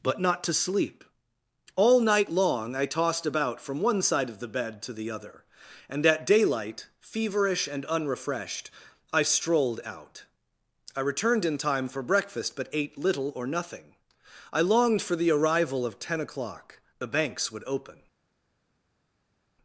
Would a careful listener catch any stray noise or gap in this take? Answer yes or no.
no